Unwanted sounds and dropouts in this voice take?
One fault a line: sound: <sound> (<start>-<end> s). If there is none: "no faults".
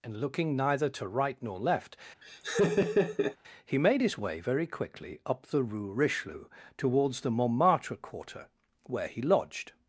sound: laugh (2.2-3.4 s)